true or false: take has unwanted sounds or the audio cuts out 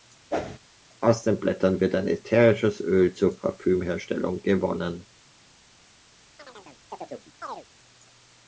true